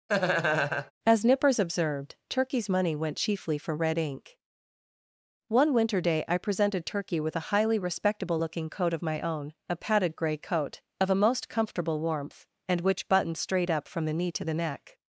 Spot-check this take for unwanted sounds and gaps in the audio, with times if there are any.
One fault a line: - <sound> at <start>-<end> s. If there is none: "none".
- laugh at 0.1-0.9 s